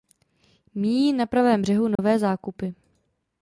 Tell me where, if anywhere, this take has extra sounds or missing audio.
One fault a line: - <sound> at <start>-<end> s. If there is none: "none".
- dropout at 2.0-2.0 s